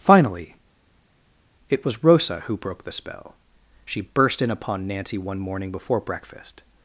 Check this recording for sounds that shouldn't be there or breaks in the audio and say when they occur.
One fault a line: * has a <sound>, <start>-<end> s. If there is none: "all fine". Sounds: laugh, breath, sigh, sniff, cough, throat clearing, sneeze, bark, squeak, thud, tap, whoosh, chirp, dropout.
all fine